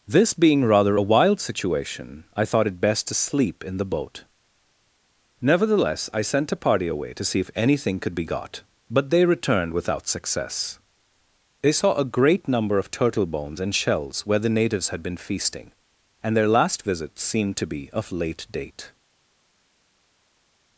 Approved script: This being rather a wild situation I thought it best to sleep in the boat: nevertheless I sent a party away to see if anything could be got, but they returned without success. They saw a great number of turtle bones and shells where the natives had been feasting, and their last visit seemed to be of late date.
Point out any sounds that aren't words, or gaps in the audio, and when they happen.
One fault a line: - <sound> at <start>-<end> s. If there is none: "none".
none